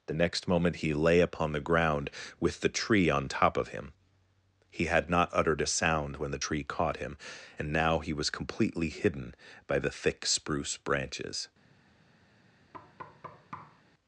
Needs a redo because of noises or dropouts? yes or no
yes